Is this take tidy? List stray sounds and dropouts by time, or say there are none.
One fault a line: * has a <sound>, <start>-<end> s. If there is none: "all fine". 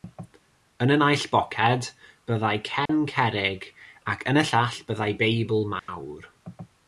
* has a dropout, 2.9-2.9 s
* has a dropout, 5.8-5.9 s